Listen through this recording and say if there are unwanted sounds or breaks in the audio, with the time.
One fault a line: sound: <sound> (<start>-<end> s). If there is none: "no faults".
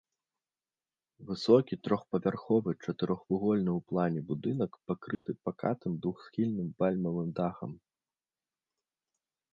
sound: dropout (5.1-5.3 s)